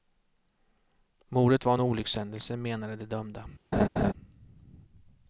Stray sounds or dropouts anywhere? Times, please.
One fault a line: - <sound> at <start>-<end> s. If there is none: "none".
- laugh at 3.7-4.1 s